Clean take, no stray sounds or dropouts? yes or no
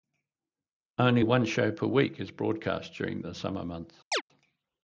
no